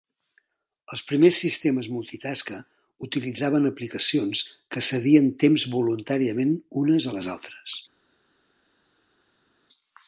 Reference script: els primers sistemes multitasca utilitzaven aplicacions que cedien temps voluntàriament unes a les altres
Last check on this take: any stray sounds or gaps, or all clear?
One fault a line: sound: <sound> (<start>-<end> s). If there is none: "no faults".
no faults